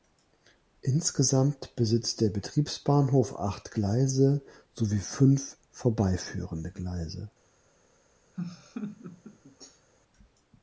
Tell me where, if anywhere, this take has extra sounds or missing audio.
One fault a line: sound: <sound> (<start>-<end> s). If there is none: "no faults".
sound: laugh (8.3-9.9 s)